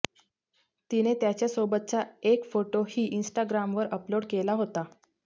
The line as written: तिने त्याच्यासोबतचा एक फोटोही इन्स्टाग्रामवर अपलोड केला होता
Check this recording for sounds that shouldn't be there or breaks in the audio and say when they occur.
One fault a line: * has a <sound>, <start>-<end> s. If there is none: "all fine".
all fine